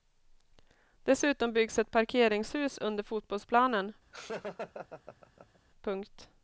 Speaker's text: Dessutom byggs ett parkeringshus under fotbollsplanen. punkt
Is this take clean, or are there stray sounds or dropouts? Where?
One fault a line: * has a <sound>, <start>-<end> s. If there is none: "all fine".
* has a laugh, 4.1-5.6 s